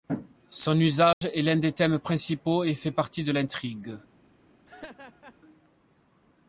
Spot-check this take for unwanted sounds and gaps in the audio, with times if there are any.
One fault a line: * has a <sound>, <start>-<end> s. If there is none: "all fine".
* has a dropout, 1.1-1.2 s
* has a laugh, 4.7-5.4 s